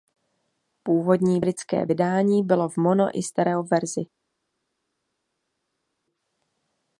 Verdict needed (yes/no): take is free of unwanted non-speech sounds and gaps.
yes